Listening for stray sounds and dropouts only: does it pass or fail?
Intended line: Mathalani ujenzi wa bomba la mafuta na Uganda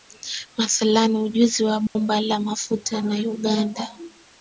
fail